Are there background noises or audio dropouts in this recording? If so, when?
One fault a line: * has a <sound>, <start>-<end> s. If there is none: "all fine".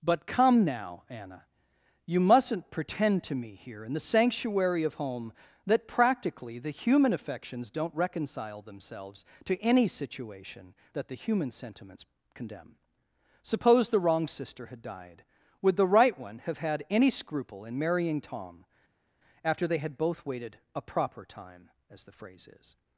all fine